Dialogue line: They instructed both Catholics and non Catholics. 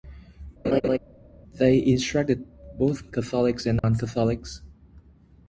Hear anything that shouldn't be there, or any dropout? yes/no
yes